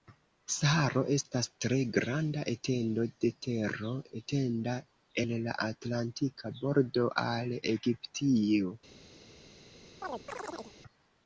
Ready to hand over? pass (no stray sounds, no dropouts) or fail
fail